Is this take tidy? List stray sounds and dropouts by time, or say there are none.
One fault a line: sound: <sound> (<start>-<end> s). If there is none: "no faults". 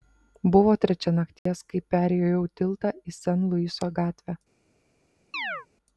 sound: dropout (1.4-1.5 s)
sound: chirp (5.3-5.7 s)